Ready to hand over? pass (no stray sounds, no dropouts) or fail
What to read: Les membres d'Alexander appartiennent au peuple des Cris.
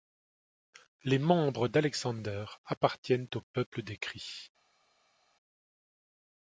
pass